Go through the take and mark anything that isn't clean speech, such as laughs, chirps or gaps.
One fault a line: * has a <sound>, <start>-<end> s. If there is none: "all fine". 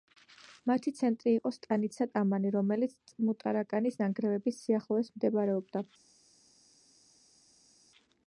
all fine